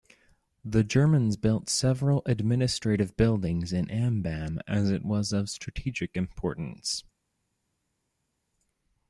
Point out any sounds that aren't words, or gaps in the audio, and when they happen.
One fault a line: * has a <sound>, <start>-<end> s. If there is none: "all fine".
all fine